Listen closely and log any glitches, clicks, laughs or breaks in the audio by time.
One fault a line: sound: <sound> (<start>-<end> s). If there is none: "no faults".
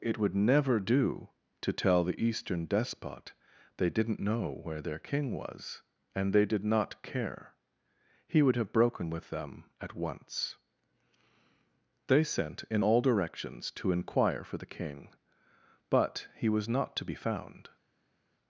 no faults